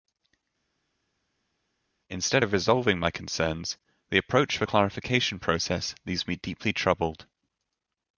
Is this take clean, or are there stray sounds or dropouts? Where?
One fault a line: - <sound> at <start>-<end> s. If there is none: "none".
none